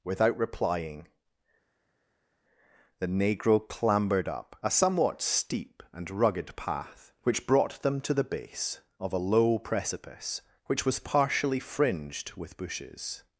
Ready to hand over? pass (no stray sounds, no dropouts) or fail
pass